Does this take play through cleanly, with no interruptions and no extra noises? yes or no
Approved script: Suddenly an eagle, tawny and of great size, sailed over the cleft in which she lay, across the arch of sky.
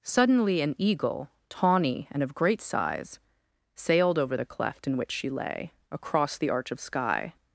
yes